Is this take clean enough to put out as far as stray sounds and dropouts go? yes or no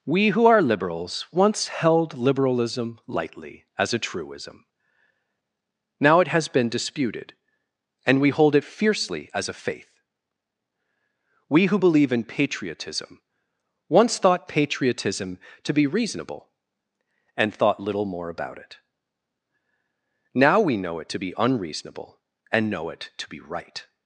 yes